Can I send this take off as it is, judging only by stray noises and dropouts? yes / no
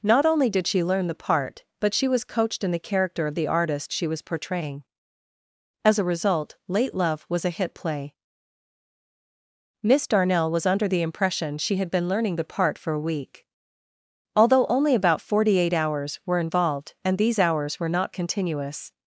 yes